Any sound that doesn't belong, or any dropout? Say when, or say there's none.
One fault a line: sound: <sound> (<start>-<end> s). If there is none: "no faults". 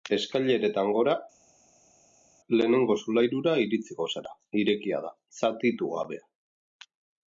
no faults